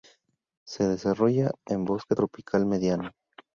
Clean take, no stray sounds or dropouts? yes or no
yes